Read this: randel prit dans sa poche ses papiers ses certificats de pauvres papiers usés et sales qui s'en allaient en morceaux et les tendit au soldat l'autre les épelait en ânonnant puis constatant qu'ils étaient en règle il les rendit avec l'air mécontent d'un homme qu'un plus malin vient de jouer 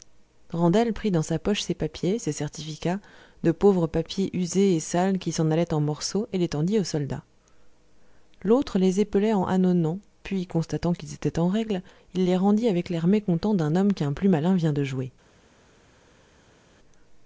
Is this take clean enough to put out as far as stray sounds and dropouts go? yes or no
yes